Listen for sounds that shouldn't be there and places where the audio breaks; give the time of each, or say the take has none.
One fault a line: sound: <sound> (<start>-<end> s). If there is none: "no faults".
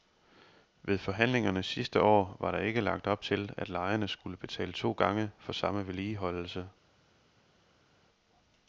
no faults